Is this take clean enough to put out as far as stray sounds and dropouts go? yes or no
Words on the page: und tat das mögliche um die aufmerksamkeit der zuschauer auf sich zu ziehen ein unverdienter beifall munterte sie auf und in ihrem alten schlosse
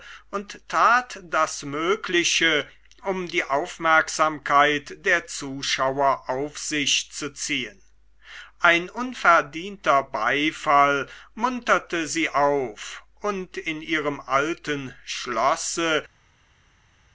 yes